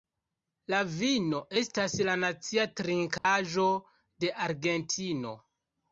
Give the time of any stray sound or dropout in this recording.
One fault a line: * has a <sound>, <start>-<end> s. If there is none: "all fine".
* has a dropout, 3.2-3.2 s